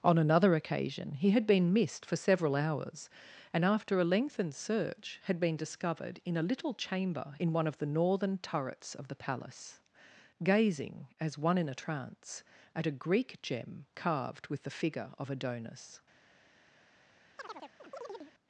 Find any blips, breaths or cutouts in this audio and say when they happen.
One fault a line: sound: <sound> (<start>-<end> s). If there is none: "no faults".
sound: chirp (17.4-18.3 s)